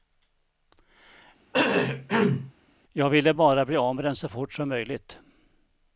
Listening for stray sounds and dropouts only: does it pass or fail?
fail